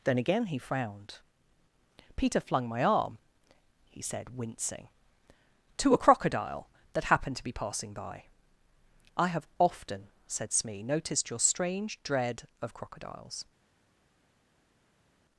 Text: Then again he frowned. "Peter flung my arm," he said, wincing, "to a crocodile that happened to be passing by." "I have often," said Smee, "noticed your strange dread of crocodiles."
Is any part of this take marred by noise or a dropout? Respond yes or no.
no